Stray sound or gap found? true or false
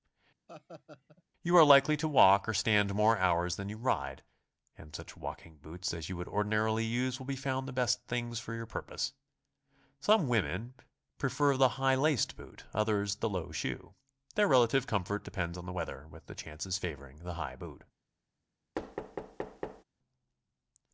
true